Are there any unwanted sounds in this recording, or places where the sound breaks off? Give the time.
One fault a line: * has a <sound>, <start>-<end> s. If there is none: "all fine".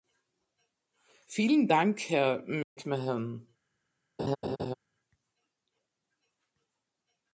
* has a dropout, 2.6-2.8 s
* has a laugh, 4.2-4.7 s